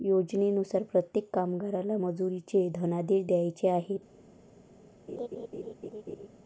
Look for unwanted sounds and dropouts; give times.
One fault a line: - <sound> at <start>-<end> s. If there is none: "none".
- laugh at 5.1-6.3 s